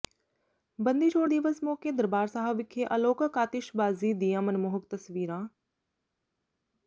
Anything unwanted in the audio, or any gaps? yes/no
no